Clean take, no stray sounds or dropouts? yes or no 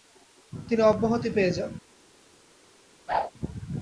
no